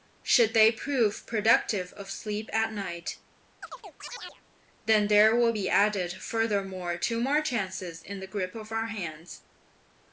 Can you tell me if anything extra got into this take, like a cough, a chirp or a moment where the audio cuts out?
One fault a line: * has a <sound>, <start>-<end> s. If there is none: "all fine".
* has a chirp, 3.6-4.4 s